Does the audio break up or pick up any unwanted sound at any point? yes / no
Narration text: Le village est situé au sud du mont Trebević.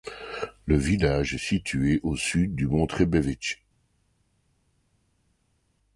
no